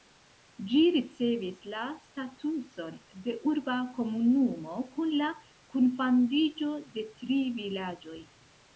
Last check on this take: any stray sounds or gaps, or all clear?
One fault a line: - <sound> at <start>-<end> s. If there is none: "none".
none